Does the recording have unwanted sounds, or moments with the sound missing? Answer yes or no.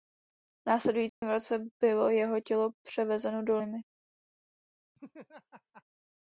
yes